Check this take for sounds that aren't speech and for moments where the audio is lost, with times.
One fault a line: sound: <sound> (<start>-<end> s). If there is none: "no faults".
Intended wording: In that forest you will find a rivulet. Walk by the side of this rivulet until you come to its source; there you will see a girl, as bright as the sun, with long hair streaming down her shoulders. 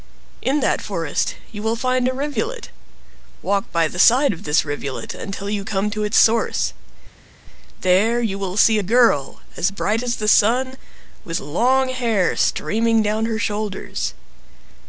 no faults